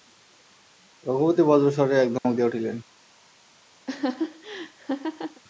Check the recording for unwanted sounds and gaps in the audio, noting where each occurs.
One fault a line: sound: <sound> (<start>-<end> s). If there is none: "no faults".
sound: dropout (2.2-2.2 s)
sound: laugh (3.9-5.4 s)